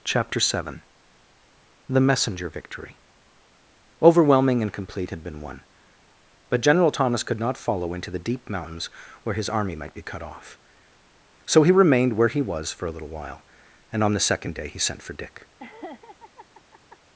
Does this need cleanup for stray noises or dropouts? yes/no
yes